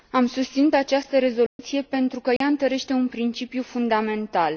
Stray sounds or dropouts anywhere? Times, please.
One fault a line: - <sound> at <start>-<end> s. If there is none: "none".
- dropout at 1.5-1.6 s
- dropout at 2.4-2.4 s